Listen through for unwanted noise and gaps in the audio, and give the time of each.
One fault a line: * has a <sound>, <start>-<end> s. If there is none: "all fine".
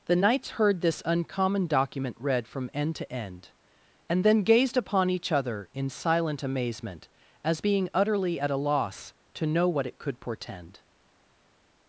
all fine